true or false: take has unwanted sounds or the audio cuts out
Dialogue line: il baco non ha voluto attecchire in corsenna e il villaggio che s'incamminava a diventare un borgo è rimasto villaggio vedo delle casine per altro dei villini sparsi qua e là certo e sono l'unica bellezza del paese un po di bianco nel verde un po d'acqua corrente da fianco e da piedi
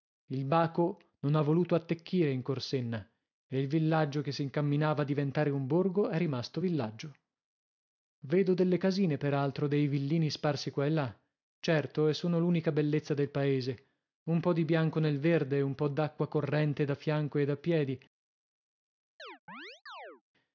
true